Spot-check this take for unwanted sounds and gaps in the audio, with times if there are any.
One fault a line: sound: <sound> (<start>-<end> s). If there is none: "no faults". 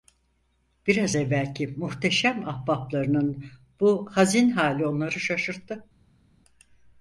no faults